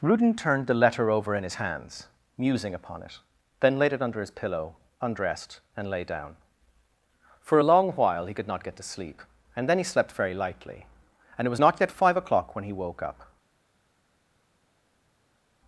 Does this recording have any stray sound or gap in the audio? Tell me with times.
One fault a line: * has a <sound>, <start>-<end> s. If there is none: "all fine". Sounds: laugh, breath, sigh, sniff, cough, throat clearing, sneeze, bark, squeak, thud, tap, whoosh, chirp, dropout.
all fine